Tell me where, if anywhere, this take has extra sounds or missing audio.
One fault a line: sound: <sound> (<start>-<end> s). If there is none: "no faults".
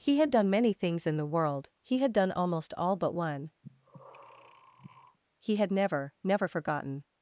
sound: breath (3.6-5.2 s)